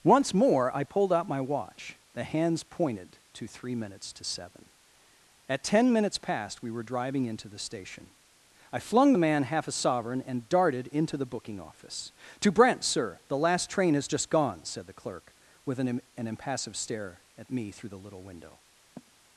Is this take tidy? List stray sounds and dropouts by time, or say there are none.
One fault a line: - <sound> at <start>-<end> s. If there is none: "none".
- sigh at 19.0-19.1 s